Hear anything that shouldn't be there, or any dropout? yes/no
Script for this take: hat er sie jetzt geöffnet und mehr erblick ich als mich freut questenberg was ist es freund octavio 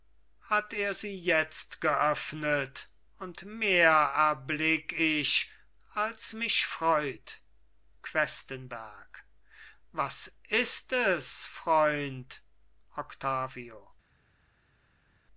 no